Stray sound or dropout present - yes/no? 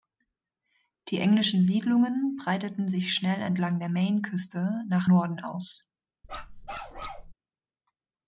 yes